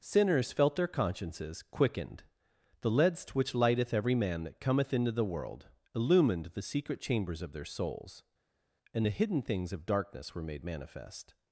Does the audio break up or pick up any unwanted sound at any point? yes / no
no